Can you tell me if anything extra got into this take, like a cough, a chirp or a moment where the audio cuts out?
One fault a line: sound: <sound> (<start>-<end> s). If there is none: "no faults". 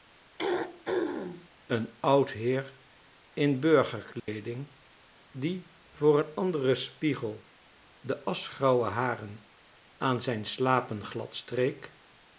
sound: throat clearing (0.4-1.5 s)
sound: dropout (4.2-4.3 s)